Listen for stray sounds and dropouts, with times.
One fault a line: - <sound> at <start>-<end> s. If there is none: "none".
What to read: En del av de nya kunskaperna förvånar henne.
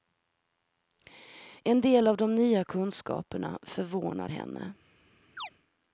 - chirp at 5.4-5.5 s